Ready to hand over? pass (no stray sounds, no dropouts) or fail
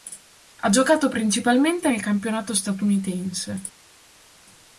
pass